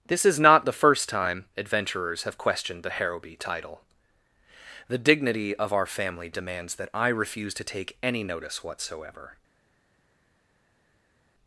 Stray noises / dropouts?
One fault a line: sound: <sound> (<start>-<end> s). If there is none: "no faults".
no faults